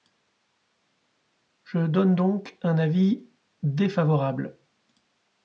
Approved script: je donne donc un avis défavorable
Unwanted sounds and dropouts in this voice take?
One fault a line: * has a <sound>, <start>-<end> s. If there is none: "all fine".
all fine